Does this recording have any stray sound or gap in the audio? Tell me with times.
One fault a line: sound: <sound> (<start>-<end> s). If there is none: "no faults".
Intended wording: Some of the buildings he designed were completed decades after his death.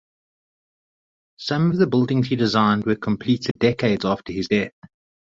sound: dropout (3.5-3.6 s)